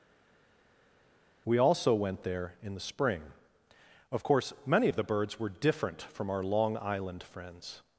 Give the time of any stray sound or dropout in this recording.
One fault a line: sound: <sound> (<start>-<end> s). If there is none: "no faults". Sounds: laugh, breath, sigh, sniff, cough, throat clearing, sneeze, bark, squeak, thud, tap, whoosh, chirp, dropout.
no faults